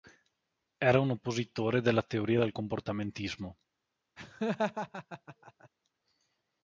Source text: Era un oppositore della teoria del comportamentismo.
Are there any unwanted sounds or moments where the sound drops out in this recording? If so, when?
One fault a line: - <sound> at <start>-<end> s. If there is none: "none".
- laugh at 4.2-5.7 s